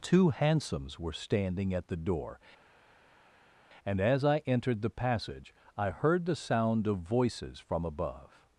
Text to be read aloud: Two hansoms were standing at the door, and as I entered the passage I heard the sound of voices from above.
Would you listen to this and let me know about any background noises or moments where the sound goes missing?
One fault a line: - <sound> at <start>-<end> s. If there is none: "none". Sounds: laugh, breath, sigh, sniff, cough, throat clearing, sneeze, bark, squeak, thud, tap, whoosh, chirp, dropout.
none